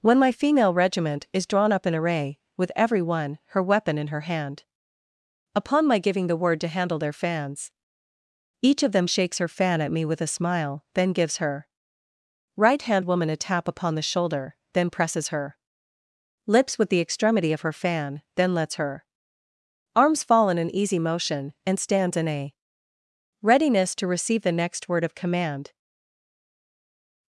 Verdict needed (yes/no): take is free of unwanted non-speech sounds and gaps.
yes